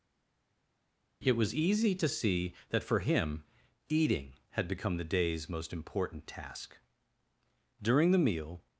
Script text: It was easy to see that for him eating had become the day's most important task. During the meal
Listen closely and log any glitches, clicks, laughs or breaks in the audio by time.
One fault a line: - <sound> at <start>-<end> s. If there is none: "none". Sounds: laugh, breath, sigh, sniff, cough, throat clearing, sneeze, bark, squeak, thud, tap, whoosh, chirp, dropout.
none